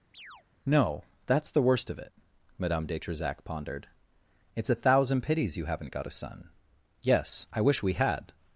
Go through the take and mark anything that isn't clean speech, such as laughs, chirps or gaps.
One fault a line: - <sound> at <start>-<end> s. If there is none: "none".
- chirp at 0.1-0.4 s